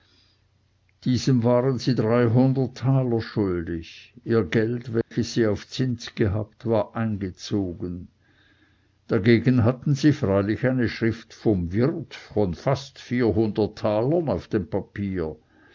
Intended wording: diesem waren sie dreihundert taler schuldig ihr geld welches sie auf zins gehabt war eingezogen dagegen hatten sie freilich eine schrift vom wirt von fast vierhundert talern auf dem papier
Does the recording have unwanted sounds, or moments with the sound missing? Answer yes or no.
yes